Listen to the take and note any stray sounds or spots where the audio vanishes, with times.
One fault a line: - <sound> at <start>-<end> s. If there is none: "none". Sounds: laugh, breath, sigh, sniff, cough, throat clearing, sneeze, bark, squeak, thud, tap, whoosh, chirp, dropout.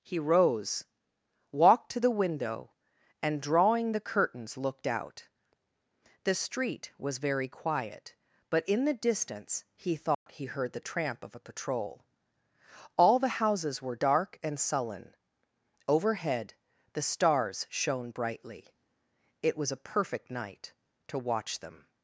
- dropout at 10.1-10.3 s